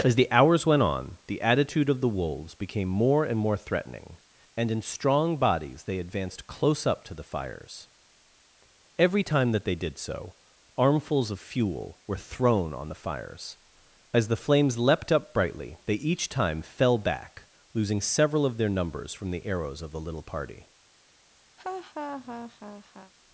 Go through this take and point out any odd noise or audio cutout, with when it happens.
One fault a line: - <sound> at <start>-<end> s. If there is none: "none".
- laugh at 21.6-23.1 s